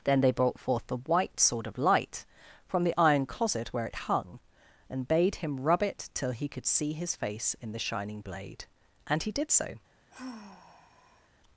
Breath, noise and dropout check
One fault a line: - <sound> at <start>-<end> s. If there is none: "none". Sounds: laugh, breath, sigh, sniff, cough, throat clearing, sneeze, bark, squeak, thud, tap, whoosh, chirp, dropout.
- sigh at 10.1-11.3 s